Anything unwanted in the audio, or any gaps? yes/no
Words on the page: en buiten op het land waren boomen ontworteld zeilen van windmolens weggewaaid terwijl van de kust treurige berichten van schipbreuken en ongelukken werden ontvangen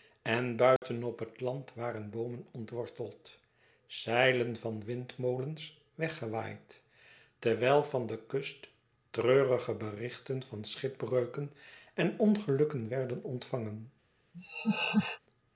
yes